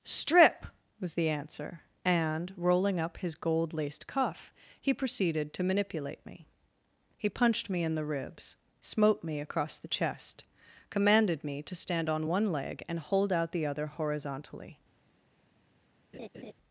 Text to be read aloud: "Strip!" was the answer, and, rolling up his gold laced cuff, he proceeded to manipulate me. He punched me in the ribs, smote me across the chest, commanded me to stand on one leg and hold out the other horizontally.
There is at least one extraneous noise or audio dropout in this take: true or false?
true